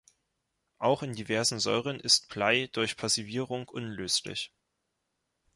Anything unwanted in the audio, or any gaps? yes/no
no